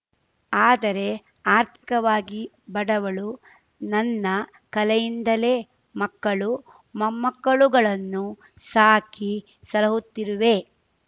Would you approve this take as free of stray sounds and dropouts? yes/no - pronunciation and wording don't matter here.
no